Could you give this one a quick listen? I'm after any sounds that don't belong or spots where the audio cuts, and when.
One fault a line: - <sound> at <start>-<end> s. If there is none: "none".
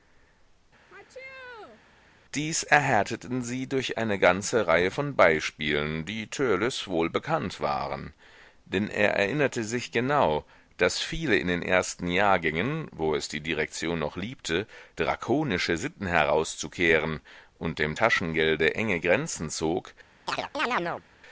- sneeze at 0.9-1.8 s
- chirp at 20.3-21.0 s